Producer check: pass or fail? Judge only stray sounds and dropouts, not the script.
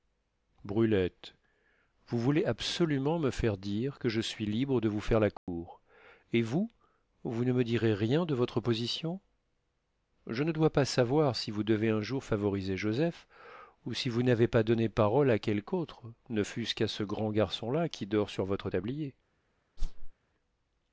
fail